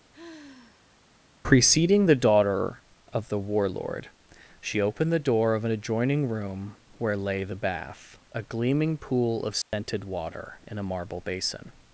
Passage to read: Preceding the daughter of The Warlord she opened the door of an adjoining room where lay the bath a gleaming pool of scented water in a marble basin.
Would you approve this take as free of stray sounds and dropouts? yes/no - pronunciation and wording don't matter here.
no